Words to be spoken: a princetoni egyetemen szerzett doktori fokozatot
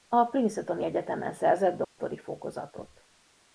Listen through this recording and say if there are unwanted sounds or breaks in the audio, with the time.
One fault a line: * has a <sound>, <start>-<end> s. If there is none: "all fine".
* has a dropout, 1.8-2.0 s